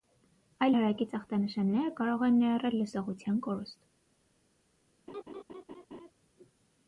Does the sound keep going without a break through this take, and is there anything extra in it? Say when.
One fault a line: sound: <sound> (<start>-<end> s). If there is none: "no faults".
sound: laugh (5.1-6.1 s)